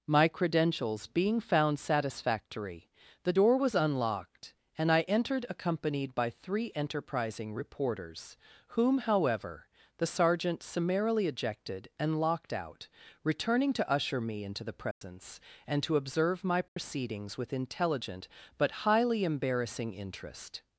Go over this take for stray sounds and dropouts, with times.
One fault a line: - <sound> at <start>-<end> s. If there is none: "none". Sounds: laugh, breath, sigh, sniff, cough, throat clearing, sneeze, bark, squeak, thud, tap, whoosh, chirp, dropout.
- dropout at 14.9-15.0 s
- dropout at 16.7-16.8 s